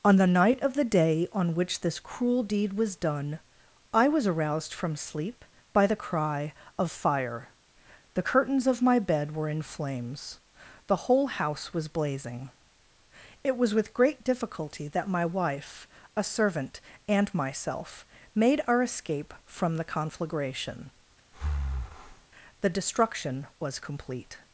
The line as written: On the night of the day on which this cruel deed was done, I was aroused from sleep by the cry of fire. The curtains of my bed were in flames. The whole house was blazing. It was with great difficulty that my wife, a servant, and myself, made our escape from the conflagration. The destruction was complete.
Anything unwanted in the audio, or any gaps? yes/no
yes